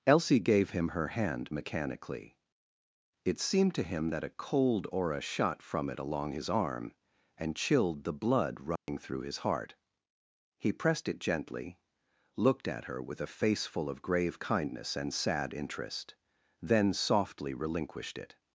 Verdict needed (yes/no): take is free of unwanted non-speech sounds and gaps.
no